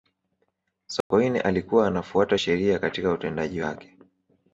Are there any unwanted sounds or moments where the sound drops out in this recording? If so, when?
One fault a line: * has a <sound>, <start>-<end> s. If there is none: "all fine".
* has a dropout, 1.0-1.1 s